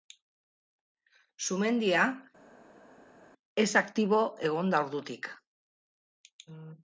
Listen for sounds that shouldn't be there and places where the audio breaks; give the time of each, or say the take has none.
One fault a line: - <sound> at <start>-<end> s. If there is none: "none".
none